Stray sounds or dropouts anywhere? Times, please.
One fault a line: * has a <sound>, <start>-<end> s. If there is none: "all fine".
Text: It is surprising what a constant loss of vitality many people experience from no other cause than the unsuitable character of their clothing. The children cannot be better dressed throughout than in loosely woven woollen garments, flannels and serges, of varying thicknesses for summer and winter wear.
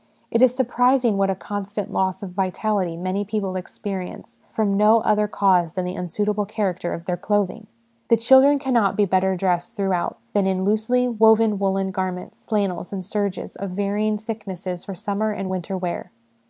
all fine